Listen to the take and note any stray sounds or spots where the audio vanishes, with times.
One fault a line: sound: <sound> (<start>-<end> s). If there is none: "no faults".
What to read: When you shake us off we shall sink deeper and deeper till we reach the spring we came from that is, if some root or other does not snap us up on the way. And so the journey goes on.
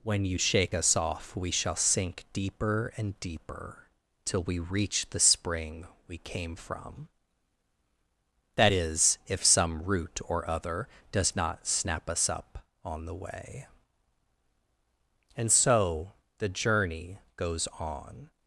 no faults